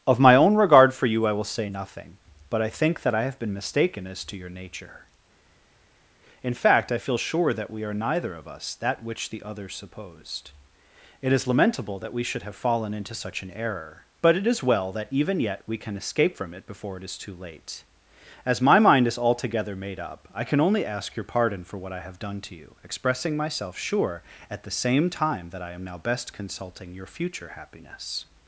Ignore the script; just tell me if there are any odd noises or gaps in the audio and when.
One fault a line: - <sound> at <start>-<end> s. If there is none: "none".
none